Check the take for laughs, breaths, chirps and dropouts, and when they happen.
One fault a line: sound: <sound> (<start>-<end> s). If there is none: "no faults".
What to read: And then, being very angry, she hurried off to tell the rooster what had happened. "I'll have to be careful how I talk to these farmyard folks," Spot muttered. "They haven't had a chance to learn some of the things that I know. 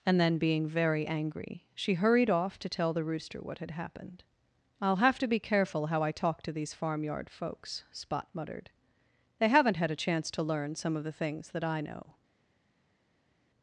no faults